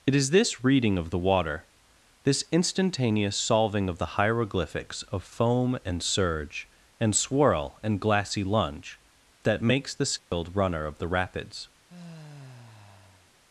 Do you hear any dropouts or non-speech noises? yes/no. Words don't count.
yes